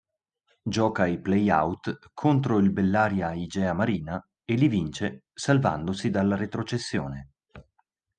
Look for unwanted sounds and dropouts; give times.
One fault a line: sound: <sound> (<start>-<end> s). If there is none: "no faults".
no faults